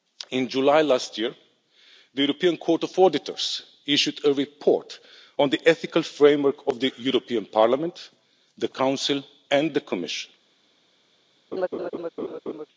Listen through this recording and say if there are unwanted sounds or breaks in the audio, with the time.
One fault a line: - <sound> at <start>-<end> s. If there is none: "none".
- laugh at 11.5-12.7 s